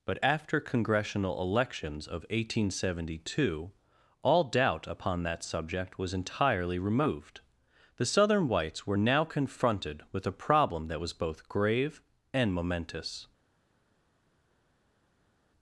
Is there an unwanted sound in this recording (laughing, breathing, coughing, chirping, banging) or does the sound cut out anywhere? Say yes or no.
no